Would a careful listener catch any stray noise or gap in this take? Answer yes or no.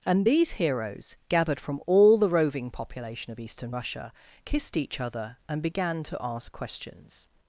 no